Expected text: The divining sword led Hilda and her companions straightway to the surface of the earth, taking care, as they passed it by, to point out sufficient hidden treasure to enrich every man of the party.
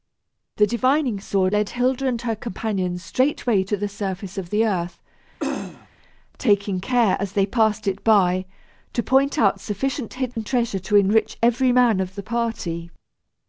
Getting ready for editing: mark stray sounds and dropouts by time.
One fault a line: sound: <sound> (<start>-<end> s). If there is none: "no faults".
sound: throat clearing (5.4-5.9 s)
sound: dropout (10.3-10.4 s)